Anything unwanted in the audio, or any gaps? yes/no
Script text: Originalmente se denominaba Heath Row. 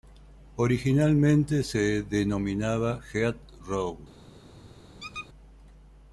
yes